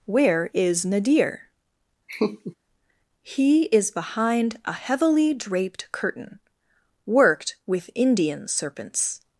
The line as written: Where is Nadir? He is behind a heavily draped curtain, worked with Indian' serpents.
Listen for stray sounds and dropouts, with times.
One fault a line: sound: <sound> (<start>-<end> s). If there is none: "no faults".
sound: laugh (2.1-2.6 s)